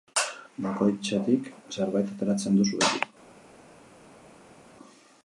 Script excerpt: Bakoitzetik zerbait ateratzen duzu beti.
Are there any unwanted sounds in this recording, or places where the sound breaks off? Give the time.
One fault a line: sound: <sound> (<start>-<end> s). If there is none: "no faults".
no faults